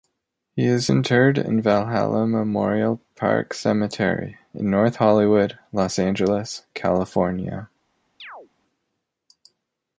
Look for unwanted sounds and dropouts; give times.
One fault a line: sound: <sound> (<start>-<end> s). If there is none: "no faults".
sound: chirp (8.2-8.5 s)